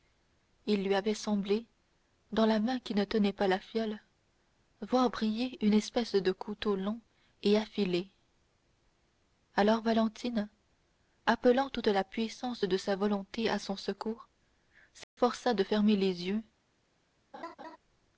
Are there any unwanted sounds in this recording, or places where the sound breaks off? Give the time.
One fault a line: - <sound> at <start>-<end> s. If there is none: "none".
- dropout at 15.0-15.2 s
- laugh at 17.3-17.8 s